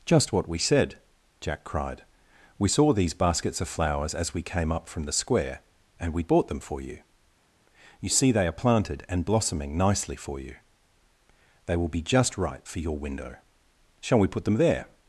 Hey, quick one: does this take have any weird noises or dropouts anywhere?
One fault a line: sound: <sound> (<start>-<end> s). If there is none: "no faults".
no faults